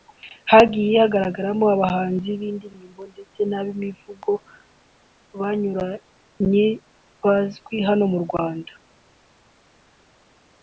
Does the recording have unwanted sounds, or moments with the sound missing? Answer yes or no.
no